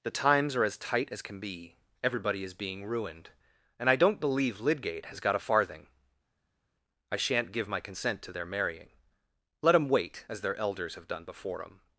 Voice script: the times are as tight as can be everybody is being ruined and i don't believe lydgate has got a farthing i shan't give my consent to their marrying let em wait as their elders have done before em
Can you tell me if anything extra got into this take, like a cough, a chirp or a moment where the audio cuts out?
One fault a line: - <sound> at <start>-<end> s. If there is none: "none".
none